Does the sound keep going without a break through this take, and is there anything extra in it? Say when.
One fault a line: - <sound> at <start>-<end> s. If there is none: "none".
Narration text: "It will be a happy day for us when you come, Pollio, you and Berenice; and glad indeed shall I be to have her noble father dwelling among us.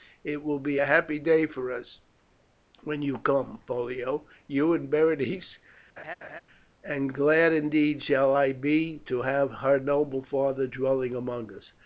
- laugh at 6.0-6.4 s